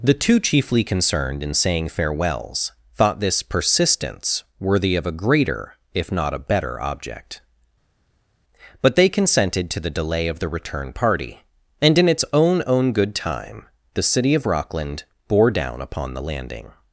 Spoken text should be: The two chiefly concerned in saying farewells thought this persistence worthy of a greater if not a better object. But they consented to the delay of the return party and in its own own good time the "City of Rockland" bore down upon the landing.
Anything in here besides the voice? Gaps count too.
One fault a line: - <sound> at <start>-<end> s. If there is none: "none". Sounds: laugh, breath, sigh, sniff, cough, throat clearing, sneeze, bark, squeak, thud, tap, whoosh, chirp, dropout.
none